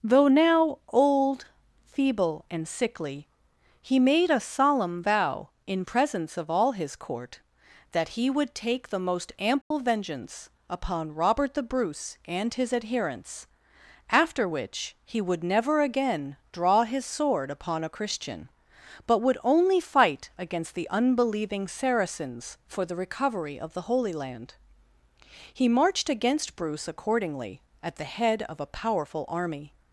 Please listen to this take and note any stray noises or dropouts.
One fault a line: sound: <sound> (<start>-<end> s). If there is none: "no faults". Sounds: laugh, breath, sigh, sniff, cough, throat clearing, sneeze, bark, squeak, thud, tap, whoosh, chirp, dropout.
sound: dropout (9.6-9.7 s)